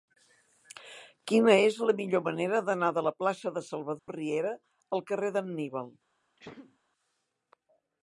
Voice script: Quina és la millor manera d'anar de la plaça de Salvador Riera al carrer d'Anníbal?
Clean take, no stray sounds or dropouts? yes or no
no